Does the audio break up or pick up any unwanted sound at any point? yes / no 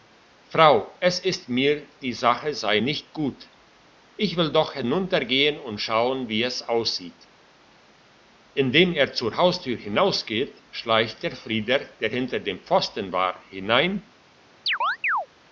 yes